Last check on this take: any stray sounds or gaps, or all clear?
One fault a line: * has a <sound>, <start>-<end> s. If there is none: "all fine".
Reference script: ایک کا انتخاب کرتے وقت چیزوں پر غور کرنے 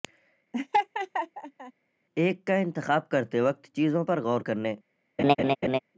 * has a laugh, 0.5-1.7 s
* has a laugh, 5.2-5.8 s